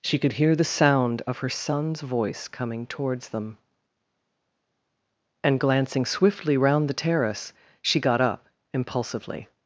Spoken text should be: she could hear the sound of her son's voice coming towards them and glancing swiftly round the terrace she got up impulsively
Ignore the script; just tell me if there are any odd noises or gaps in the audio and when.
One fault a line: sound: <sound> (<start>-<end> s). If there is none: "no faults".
no faults